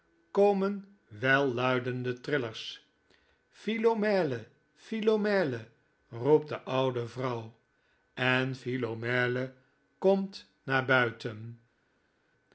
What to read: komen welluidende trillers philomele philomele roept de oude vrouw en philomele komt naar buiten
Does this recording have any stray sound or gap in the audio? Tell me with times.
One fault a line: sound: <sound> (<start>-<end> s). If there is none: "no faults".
no faults